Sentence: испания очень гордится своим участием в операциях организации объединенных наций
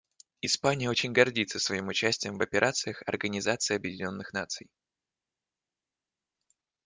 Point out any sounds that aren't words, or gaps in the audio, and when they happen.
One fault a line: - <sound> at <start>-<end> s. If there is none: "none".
none